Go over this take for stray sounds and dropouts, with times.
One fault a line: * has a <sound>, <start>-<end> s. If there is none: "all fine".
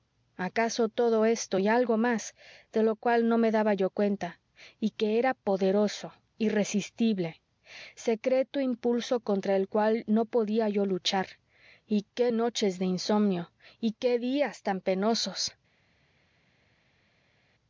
all fine